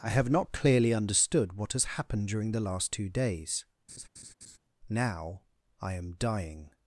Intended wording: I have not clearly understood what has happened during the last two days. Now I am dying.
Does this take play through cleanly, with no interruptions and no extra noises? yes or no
no